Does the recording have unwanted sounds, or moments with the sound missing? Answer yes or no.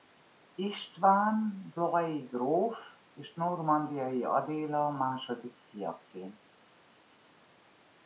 no